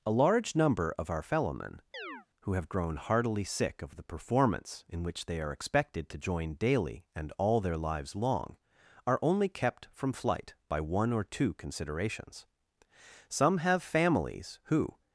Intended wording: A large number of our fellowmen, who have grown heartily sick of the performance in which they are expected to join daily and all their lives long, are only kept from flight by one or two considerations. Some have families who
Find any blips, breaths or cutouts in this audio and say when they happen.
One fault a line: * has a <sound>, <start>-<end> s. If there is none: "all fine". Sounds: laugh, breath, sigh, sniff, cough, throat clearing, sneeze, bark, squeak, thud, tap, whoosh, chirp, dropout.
* has a chirp, 1.9-2.3 s